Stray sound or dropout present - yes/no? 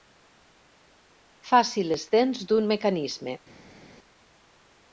no